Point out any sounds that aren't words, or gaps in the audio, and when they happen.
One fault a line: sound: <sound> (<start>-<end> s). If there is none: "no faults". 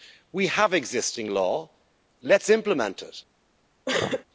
sound: sneeze (3.9-4.2 s)